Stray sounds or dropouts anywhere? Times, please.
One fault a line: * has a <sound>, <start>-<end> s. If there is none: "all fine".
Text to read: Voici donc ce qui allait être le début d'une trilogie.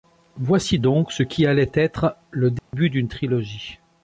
* has a dropout, 2.6-2.7 s